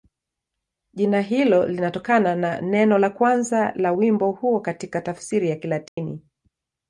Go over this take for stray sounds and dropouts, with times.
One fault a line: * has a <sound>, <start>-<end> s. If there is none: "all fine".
* has a dropout, 5.9-6.0 s